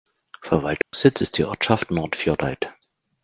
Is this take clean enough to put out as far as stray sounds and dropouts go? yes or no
no